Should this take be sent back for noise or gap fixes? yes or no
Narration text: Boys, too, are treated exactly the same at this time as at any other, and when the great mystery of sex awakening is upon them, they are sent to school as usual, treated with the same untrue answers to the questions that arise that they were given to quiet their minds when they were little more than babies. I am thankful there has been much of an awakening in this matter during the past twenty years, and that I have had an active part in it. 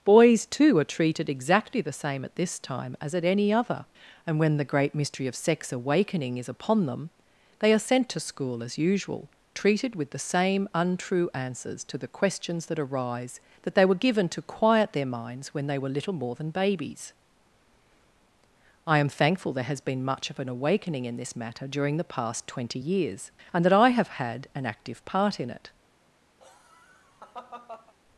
yes